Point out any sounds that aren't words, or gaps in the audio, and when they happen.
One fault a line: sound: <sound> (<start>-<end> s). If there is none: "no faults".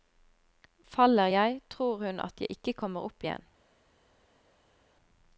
no faults